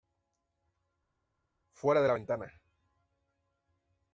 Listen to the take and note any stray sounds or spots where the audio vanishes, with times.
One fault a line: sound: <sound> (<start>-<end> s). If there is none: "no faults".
no faults